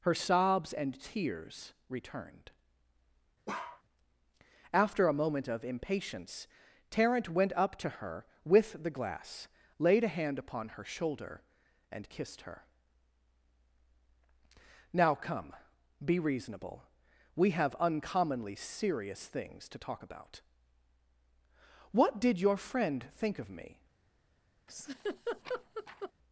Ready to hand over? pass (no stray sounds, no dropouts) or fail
fail